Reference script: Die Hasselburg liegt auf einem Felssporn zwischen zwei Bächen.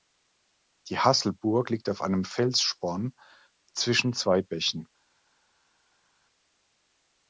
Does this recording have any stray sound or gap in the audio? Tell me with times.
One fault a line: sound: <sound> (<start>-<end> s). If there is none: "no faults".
no faults